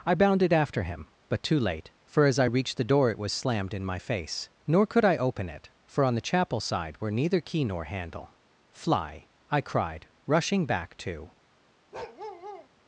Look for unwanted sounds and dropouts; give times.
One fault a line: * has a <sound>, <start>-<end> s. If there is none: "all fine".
* has a bark, 11.9-12.7 s